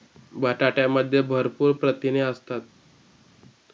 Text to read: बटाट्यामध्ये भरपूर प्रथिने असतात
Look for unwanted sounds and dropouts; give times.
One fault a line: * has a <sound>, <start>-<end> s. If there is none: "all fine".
all fine